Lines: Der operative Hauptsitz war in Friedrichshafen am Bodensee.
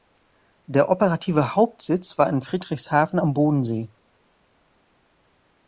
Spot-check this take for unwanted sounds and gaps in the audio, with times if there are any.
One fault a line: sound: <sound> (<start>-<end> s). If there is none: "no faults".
no faults